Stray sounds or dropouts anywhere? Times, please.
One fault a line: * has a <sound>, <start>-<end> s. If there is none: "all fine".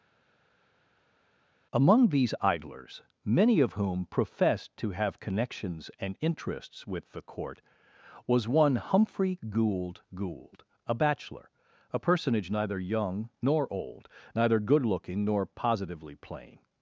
all fine